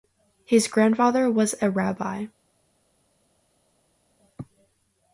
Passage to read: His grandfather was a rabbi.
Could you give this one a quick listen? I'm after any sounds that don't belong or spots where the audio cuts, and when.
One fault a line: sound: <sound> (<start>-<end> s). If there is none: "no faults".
no faults